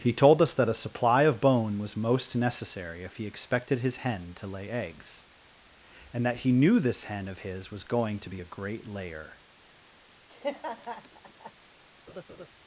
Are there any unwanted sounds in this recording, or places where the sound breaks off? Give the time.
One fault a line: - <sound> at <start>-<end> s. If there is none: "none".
- laugh at 10.3-11.5 s
- laugh at 12.1-12.5 s